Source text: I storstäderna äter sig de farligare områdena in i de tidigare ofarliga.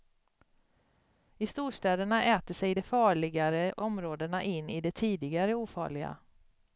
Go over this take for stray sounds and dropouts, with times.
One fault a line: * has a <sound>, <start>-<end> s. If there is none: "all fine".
all fine